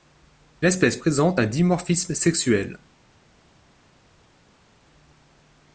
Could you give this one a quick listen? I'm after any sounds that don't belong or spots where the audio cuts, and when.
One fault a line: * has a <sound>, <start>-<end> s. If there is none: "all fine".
all fine